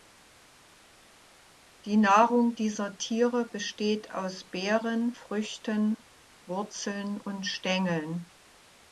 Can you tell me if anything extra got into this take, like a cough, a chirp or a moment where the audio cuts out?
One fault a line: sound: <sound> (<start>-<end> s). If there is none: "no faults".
no faults